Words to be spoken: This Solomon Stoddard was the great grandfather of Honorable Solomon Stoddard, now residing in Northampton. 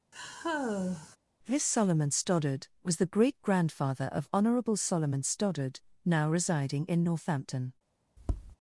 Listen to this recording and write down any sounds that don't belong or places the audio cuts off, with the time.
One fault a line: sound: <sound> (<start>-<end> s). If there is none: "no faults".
sound: sigh (0.1-1.2 s)
sound: tap (8.2-8.6 s)